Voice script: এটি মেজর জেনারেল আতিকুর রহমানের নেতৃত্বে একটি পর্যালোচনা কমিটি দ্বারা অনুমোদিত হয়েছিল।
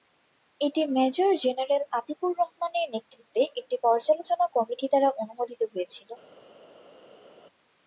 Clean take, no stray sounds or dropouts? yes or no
yes